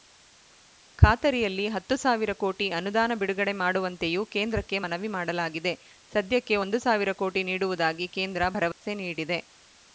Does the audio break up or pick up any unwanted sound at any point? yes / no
yes